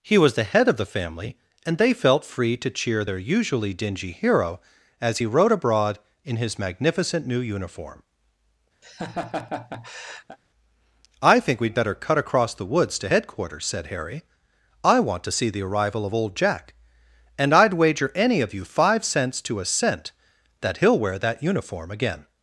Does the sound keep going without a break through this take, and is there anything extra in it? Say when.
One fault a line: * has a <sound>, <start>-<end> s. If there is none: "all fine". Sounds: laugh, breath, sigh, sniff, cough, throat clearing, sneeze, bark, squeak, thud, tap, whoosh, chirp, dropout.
* has a laugh, 8.8-10.4 s